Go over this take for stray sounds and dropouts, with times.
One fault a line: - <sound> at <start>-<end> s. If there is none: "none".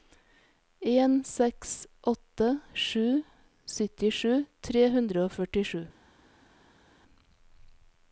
none